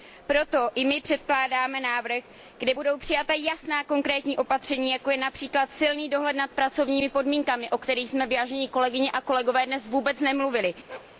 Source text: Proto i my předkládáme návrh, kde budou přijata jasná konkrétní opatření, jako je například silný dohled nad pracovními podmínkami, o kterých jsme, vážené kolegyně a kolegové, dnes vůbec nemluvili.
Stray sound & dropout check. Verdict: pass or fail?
fail